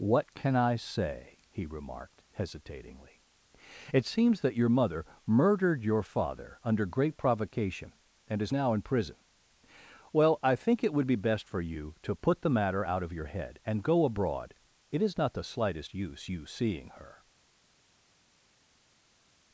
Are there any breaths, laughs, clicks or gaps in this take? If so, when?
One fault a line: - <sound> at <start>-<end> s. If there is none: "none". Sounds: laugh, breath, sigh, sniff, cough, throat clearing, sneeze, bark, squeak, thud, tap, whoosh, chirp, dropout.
none